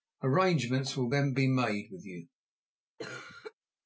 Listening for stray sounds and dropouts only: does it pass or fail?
fail